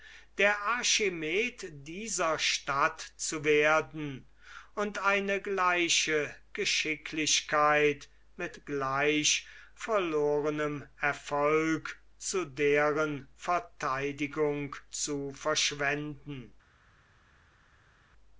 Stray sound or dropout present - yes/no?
no